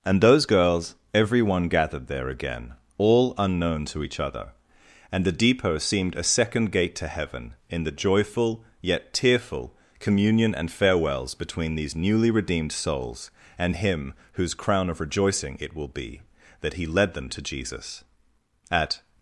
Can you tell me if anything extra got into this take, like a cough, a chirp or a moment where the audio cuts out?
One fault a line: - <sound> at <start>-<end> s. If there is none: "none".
none